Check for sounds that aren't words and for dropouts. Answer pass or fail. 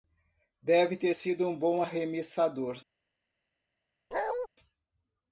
fail